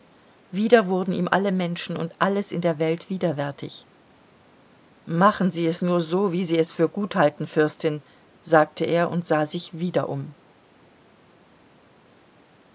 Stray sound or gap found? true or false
false